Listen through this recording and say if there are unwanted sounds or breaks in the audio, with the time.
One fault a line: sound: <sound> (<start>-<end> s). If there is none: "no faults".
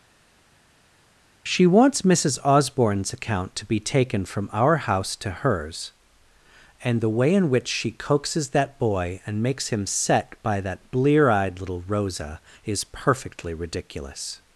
no faults